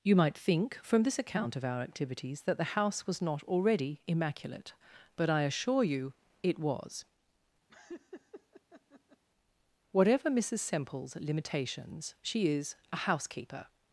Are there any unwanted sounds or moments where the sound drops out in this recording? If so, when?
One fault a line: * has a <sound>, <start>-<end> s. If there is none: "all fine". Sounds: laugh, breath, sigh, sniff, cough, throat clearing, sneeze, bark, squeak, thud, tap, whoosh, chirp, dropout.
* has a laugh, 7.7-9.2 s